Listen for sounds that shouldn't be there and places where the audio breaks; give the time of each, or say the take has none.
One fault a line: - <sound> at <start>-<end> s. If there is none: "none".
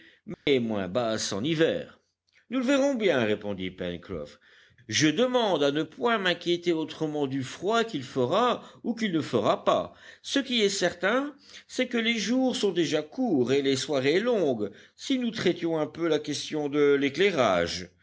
- dropout at 0.3-0.5 s